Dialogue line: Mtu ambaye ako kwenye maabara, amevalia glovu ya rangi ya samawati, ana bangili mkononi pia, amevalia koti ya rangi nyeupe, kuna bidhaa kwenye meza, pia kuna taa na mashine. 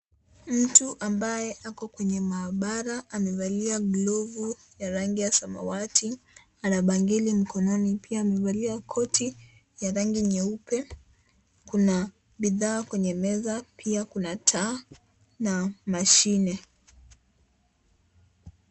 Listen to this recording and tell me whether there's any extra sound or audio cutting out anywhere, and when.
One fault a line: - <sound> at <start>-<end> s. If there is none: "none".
none